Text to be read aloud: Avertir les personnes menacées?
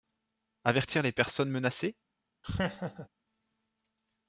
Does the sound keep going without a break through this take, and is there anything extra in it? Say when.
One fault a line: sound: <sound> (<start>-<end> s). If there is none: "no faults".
sound: laugh (2.4-3.1 s)